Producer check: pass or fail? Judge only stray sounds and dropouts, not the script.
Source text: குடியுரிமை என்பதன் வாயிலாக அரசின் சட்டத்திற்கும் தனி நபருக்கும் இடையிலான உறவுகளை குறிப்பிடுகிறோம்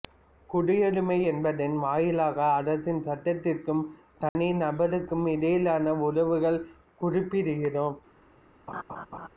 fail